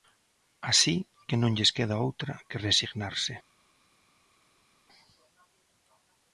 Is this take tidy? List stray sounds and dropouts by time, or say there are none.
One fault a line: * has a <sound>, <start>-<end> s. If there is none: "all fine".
all fine